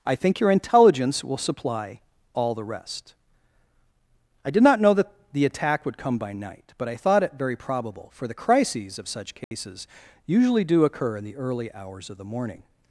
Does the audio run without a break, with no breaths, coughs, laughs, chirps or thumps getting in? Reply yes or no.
no